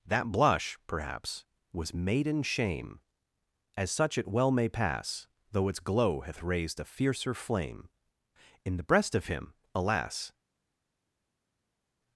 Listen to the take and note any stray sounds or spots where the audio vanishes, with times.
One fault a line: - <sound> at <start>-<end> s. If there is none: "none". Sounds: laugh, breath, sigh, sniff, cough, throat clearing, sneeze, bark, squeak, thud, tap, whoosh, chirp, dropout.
none